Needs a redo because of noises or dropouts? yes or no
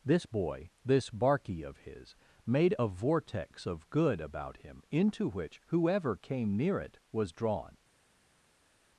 no